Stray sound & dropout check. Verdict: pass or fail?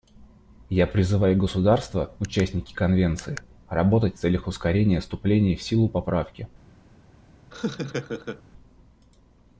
fail